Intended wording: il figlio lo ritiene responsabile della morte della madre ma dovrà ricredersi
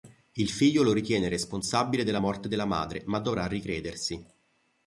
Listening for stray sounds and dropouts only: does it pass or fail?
pass